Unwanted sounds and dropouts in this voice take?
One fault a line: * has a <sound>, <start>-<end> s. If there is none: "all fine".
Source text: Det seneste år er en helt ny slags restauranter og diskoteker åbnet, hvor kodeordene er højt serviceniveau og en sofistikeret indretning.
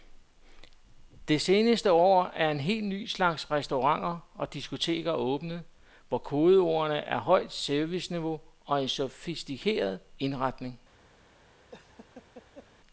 * has a laugh, 11.7-12.7 s